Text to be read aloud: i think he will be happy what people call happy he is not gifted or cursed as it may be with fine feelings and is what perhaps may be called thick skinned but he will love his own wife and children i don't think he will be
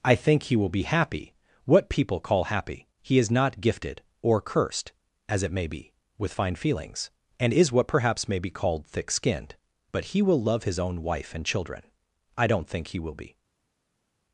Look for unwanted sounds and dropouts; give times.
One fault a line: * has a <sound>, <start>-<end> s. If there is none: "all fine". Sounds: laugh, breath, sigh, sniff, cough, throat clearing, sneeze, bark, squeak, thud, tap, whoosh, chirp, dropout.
all fine